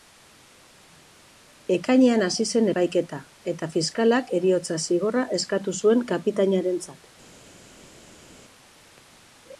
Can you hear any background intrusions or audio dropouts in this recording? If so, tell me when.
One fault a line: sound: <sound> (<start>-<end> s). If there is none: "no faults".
no faults